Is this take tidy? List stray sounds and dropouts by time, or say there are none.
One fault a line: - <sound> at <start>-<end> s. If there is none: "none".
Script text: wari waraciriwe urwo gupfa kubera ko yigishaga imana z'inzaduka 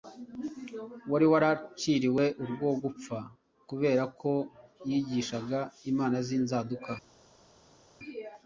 none